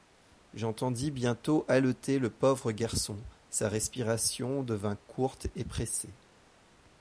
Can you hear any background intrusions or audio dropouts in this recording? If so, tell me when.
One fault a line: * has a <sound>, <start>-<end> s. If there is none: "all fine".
all fine